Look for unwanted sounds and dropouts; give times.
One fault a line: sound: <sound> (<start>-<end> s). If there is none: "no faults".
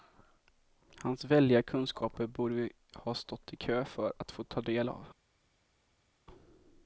no faults